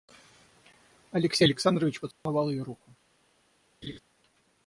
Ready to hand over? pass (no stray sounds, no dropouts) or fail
fail